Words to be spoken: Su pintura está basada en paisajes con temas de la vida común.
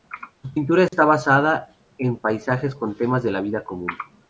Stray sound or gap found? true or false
true